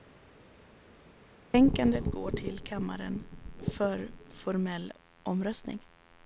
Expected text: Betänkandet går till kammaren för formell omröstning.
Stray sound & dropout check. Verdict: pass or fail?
pass